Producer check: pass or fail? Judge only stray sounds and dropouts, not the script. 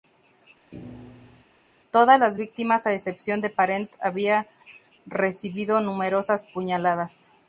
fail